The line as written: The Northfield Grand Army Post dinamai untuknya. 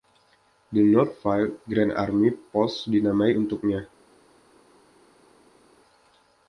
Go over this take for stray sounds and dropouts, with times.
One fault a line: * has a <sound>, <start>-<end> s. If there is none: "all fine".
all fine